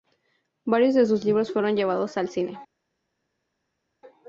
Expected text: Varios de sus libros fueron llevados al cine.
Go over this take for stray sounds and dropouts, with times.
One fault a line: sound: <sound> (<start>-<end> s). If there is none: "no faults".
no faults